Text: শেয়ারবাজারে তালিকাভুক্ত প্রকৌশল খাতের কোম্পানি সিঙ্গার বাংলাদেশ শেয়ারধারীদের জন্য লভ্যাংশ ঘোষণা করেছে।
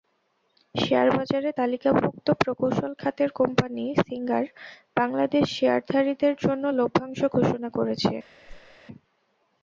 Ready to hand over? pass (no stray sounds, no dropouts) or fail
fail